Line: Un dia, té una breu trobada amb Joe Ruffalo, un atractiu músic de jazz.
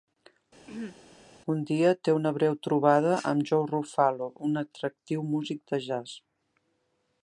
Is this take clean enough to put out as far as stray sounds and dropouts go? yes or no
no